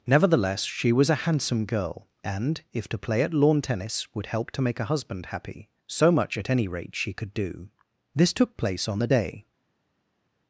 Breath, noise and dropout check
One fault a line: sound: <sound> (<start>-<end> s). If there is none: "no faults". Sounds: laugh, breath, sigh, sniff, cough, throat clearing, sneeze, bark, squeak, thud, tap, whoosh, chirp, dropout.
no faults